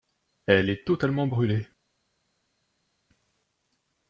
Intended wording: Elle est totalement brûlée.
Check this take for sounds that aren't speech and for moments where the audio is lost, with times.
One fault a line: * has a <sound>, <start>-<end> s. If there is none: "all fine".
all fine